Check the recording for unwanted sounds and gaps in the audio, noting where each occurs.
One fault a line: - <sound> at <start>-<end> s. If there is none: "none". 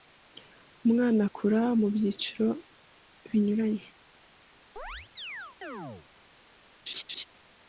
- chirp at 4.8-6.1 s
- laugh at 6.9-7.2 s